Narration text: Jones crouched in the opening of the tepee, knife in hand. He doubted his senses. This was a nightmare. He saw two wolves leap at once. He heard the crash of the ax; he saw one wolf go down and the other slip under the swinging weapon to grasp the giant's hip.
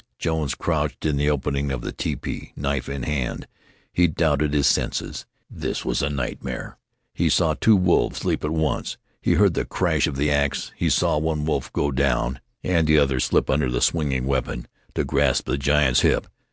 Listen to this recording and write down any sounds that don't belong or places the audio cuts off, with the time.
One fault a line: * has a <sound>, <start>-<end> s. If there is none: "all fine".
all fine